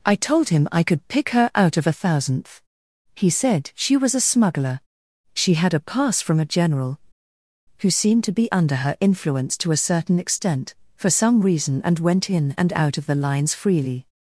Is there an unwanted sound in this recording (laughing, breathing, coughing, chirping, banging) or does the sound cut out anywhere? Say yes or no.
no